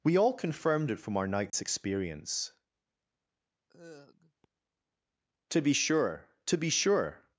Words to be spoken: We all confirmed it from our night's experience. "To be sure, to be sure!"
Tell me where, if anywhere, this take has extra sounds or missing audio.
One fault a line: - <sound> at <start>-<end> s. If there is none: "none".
- dropout at 1.5-1.5 s
- sigh at 3.7-4.5 s